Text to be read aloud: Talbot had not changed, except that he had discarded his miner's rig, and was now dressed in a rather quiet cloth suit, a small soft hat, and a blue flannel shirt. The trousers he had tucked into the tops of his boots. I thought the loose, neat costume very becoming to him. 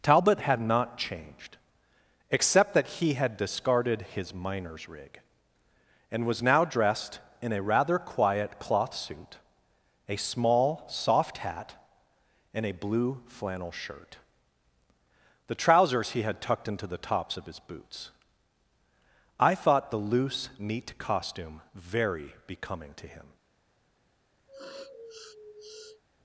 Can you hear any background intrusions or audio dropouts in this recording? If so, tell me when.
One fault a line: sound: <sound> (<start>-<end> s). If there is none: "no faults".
sound: sniff (24.5-26.0 s)